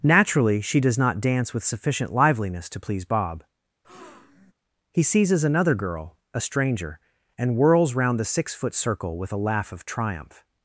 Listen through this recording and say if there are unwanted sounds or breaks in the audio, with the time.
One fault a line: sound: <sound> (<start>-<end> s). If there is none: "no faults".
sound: breath (3.8-4.5 s)